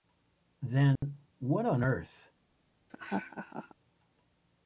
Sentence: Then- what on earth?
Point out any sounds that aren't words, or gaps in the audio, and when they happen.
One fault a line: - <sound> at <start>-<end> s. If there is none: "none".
- dropout at 1.0-1.0 s
- laugh at 2.9-3.7 s